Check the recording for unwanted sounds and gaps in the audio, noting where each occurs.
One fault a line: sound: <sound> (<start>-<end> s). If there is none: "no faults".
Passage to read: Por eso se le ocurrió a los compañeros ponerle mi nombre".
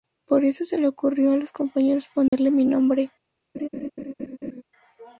sound: dropout (2.3-2.3 s)
sound: laugh (3.5-4.6 s)